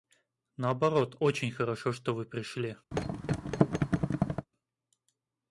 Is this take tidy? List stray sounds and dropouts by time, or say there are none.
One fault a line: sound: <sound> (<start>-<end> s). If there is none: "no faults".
sound: thud (2.9-4.5 s)